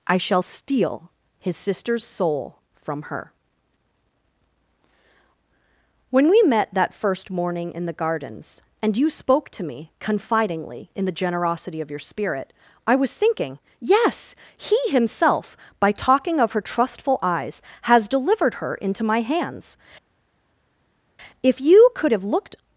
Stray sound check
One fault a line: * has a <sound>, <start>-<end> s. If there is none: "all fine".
all fine